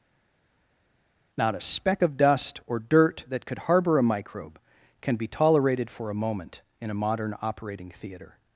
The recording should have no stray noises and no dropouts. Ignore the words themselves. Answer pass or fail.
pass